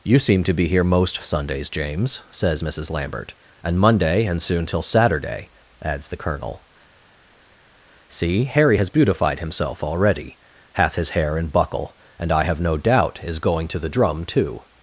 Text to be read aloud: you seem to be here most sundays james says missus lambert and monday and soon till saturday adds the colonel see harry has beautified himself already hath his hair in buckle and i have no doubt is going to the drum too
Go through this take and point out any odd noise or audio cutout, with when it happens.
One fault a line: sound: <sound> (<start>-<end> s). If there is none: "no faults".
no faults